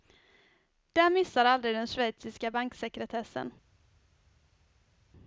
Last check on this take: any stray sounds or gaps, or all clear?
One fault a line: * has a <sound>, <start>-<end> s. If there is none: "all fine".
all fine